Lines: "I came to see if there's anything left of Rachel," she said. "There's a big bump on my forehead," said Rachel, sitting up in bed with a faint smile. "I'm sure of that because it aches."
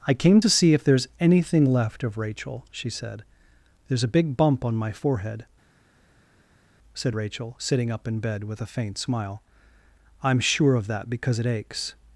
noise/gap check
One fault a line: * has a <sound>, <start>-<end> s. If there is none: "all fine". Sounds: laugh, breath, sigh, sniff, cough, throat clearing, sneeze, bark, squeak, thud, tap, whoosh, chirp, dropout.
all fine